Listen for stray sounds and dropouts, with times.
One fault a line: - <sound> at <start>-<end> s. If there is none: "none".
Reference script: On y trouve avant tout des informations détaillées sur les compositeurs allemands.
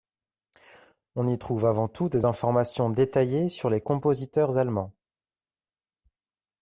none